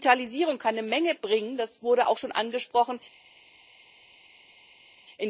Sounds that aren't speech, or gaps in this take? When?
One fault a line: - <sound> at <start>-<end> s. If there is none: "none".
none